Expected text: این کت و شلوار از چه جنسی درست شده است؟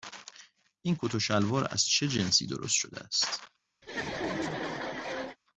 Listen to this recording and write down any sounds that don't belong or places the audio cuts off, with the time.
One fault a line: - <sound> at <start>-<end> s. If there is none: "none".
- laugh at 3.8-5.4 s